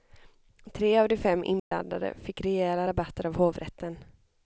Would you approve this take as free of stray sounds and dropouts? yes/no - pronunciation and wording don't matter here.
no